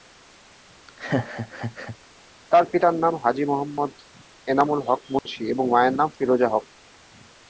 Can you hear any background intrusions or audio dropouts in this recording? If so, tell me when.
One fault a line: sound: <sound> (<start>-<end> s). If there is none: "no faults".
sound: laugh (0.9-2.0 s)
sound: dropout (5.2-5.3 s)